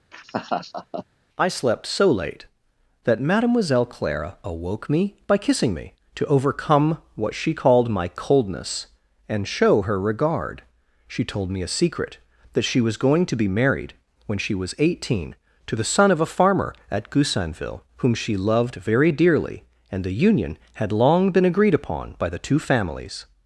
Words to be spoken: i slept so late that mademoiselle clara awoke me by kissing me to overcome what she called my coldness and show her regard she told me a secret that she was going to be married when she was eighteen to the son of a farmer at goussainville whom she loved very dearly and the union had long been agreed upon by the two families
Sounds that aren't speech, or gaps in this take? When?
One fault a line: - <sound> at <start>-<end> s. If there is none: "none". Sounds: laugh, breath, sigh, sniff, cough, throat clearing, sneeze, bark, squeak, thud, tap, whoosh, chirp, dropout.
- laugh at 0.1-1.1 s